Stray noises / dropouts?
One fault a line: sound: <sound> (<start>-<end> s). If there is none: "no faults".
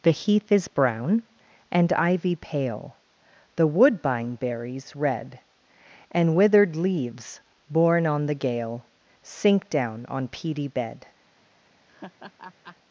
sound: laugh (11.9-12.8 s)